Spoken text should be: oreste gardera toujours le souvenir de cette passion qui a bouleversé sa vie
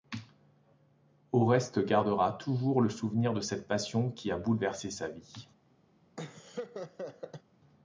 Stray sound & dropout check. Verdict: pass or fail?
fail